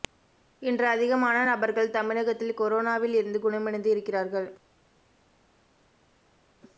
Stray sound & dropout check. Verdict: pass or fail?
pass